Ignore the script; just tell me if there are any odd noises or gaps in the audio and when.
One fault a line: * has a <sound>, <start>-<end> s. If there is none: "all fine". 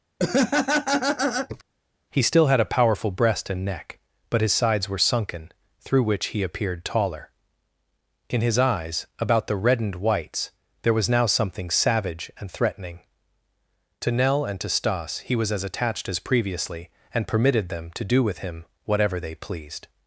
* has a laugh, 0.2-1.6 s